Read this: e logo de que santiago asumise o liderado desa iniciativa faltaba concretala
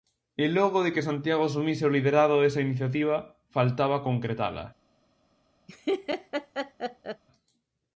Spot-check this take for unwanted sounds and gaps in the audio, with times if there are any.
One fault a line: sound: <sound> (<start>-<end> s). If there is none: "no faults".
sound: laugh (5.7-7.2 s)